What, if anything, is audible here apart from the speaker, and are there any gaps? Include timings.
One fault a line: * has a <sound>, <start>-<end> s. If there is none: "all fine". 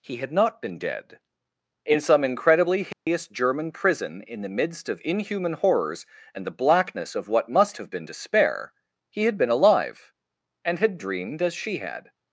* has a dropout, 2.9-3.1 s